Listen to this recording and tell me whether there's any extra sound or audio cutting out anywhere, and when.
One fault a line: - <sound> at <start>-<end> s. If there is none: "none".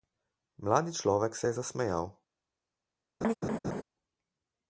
- laugh at 3.2-3.8 s